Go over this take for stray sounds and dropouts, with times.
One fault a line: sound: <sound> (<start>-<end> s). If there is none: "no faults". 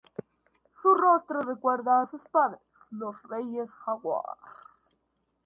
no faults